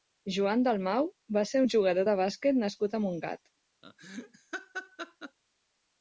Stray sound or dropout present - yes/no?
yes